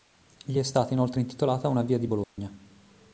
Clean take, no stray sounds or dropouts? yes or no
no